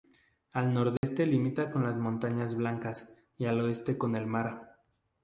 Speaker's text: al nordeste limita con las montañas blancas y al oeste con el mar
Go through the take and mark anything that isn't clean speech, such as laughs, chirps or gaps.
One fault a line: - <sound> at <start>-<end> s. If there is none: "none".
- dropout at 1.0-1.0 s